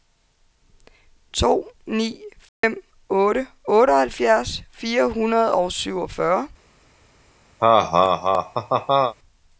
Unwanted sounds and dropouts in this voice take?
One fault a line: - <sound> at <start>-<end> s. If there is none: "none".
- dropout at 2.5-2.6 s
- laugh at 7.6-9.1 s